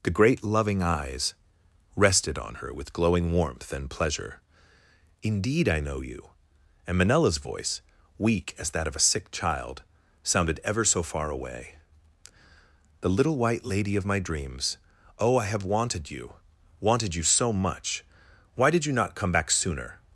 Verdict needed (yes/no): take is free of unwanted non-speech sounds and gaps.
yes